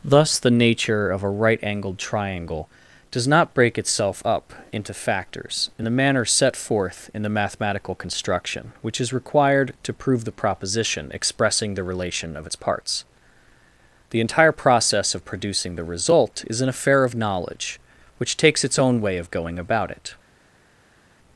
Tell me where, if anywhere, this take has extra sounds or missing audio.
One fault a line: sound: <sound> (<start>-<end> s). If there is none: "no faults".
no faults